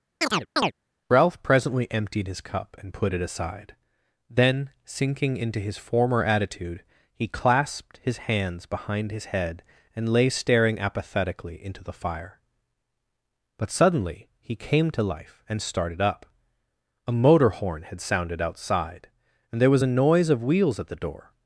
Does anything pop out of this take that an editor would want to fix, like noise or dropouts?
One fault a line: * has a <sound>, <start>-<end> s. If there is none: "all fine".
* has a chirp, 0.2-0.7 s